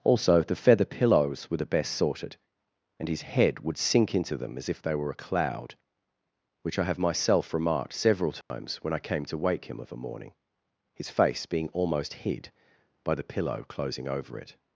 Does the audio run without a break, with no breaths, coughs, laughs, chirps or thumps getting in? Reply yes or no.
no